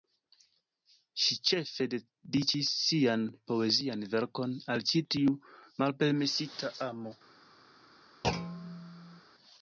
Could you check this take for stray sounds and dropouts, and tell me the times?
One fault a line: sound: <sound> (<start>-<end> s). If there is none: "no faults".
sound: thud (8.2-9.2 s)